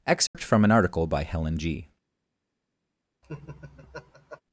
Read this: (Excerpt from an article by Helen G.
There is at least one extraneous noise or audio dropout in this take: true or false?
true